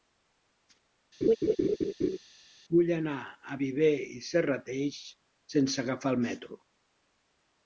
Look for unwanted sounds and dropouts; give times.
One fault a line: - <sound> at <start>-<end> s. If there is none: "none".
- laugh at 1.2-2.2 s